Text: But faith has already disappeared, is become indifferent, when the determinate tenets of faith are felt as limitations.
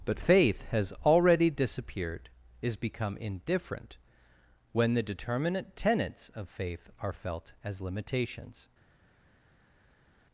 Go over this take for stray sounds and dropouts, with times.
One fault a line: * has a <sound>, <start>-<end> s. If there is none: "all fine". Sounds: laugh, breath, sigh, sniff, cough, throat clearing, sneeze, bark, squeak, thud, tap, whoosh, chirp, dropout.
all fine